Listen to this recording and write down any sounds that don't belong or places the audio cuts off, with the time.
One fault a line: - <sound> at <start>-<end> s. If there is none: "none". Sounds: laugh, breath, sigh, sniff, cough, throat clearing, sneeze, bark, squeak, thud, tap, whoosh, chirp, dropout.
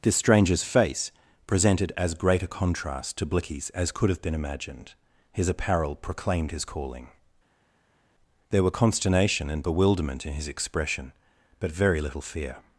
none